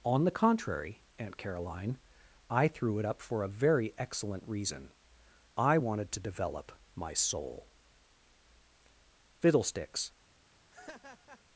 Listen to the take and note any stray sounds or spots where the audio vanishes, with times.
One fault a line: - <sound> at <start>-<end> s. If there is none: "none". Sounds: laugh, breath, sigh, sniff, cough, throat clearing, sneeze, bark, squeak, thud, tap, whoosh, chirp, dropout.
- laugh at 10.7-11.4 s